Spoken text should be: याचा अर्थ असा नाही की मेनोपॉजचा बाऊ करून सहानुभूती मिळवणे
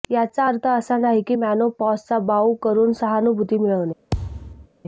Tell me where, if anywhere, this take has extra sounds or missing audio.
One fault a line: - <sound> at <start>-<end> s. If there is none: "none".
- thud at 4.1-4.7 s